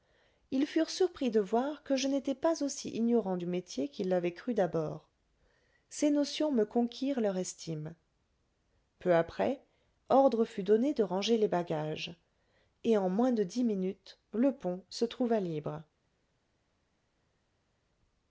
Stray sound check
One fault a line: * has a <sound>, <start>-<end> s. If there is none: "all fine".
all fine